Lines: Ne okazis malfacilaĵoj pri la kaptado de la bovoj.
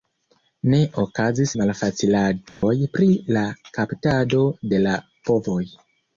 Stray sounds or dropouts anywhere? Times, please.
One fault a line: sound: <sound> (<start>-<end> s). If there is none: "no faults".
sound: dropout (2.5-2.6 s)